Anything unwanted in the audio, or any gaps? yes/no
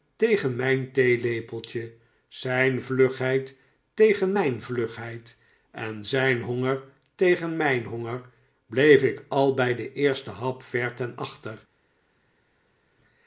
no